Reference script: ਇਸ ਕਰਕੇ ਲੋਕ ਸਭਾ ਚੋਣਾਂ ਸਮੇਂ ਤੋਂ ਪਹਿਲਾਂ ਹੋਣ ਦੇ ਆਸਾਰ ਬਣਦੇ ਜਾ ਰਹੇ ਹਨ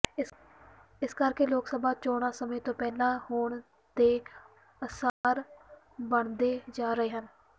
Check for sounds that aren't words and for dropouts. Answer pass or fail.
fail